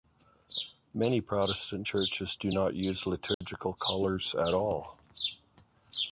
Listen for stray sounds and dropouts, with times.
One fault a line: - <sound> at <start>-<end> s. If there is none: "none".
- dropout at 3.3-3.4 s